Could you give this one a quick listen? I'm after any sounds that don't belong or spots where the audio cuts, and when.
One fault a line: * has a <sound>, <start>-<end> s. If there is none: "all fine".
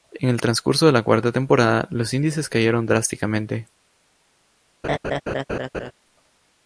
* has a laugh, 4.8-5.9 s